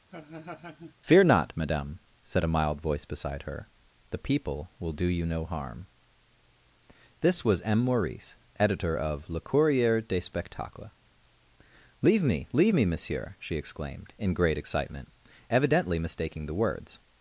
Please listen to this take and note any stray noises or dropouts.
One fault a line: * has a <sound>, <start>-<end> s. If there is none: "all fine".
* has a laugh, 0.1-0.9 s